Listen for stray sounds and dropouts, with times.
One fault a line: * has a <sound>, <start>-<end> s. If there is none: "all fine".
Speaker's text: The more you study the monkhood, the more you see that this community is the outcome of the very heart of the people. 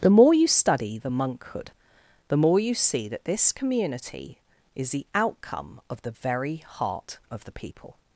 all fine